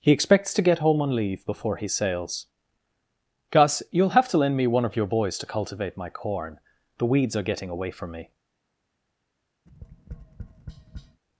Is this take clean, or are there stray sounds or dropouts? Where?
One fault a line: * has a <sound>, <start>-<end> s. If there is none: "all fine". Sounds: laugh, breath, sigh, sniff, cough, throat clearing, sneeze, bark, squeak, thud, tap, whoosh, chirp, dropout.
* has a tap, 9.7-11.2 s